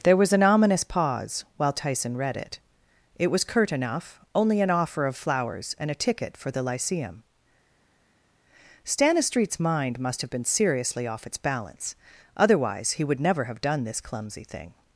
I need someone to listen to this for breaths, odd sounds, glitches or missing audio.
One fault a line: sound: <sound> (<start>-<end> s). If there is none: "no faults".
no faults